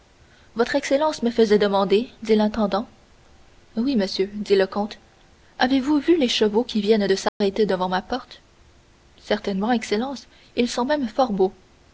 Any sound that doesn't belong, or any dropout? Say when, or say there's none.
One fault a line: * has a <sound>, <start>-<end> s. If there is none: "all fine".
* has a dropout, 7.3-7.4 s